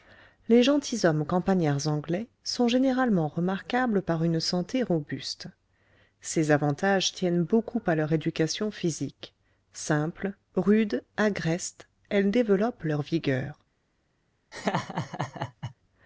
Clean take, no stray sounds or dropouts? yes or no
no